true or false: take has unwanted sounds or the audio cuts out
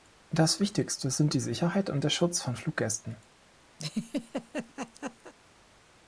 true